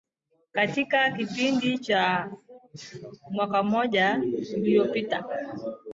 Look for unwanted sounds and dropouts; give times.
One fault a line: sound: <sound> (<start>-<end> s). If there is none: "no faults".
no faults